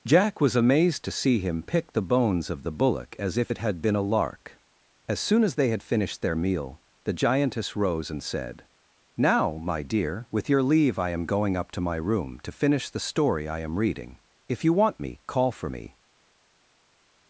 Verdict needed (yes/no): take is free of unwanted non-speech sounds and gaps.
yes